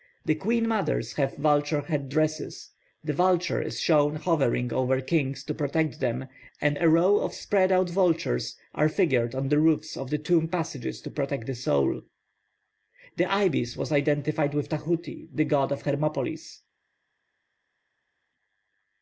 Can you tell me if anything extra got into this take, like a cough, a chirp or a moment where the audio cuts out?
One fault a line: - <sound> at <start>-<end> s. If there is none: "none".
none